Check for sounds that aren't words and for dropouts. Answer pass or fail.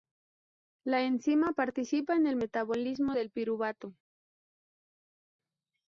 pass